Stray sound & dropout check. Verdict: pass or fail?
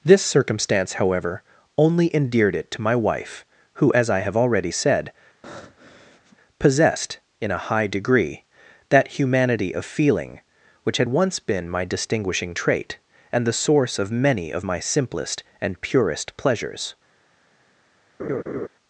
fail